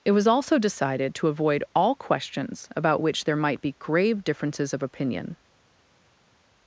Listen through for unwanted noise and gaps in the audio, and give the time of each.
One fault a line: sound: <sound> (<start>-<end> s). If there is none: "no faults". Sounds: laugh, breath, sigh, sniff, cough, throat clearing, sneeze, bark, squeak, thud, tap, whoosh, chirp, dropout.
no faults